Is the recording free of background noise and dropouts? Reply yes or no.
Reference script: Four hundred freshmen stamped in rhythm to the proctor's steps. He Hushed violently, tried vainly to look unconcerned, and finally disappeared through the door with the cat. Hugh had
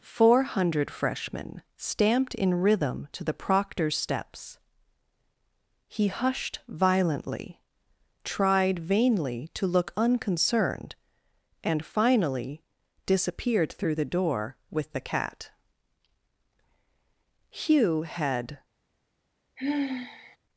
no